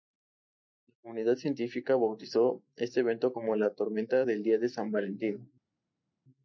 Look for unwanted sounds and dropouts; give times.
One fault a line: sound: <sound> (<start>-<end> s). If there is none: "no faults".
no faults